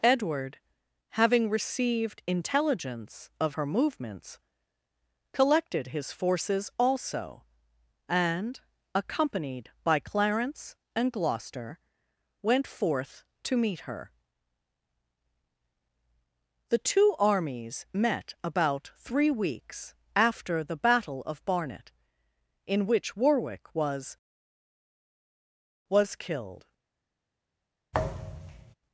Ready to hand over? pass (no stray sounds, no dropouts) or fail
fail